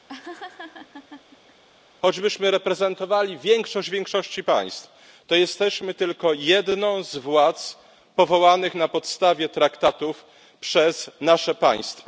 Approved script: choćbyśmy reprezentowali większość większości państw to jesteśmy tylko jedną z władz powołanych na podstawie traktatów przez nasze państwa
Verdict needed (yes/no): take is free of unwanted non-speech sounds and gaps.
no